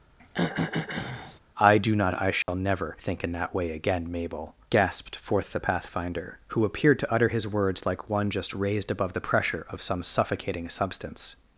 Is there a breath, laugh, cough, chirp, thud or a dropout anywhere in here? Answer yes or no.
yes